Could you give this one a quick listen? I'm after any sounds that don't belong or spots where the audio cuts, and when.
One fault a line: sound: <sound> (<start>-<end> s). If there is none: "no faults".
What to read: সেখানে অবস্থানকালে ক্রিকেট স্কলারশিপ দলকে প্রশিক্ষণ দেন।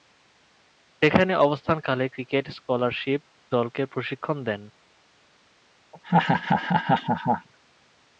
sound: laugh (5.9-7.5 s)